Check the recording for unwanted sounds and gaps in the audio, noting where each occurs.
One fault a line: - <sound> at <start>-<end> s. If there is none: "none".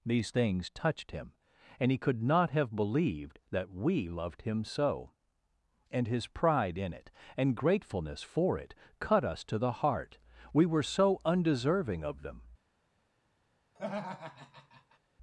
- laugh at 13.8-15.0 s